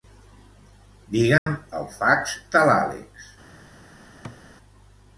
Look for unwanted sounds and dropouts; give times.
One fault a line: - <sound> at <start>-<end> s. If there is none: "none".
- dropout at 1.4-1.5 s
- thud at 4.2-4.4 s